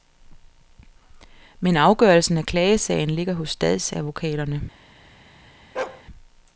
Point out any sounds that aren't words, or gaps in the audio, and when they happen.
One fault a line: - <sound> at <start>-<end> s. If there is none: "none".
- bark at 5.7-6.0 s